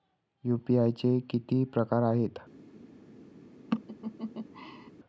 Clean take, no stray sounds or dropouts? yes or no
no